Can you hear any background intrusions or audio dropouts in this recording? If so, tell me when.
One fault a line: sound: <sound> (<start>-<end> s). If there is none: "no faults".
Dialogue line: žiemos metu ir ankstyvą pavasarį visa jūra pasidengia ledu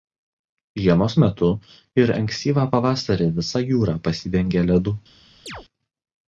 sound: chirp (5.5-5.7 s)